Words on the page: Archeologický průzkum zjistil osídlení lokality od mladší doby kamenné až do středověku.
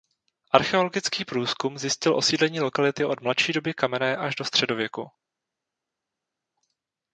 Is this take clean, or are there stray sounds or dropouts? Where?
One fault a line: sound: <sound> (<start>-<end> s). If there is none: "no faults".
no faults